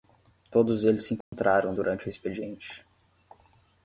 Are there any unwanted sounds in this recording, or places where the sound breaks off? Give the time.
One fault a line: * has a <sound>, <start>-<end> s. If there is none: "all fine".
* has a dropout, 1.2-1.3 s